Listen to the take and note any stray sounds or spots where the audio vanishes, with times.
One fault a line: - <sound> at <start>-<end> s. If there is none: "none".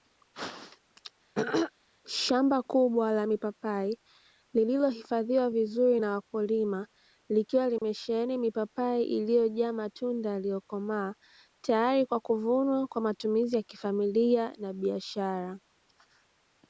- throat clearing at 1.3-1.7 s
- dropout at 7.8-7.8 s